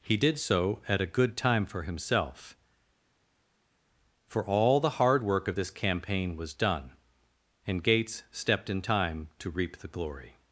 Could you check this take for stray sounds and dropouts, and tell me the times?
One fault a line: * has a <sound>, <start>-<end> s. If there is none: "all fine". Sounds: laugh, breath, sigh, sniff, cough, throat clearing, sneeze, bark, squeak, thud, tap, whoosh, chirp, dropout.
all fine